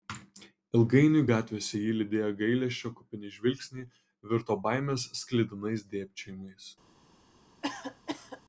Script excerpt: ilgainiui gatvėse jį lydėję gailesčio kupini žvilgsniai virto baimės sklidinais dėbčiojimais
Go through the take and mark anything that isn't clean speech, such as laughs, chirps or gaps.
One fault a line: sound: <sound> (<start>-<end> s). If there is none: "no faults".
sound: cough (7.6-8.4 s)